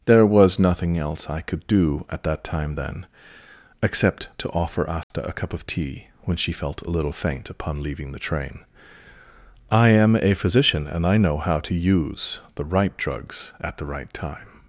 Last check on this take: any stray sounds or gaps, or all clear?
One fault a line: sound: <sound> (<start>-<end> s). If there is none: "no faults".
sound: dropout (5.0-5.1 s)